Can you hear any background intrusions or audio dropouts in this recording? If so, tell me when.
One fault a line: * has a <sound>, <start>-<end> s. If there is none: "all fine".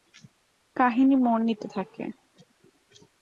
all fine